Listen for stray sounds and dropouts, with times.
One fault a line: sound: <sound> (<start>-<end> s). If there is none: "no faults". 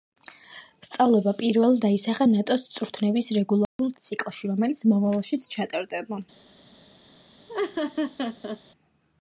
sound: dropout (3.6-3.8 s)
sound: laugh (7.5-8.6 s)